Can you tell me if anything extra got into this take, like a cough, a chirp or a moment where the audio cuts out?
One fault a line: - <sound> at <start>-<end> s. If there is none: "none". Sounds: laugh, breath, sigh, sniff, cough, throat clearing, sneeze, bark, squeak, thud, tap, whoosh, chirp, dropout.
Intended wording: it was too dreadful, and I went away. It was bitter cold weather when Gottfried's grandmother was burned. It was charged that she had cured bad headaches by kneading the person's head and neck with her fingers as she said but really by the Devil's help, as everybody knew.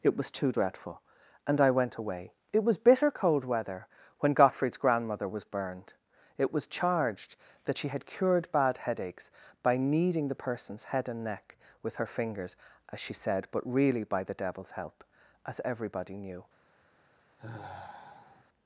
- sigh at 17.4-18.4 s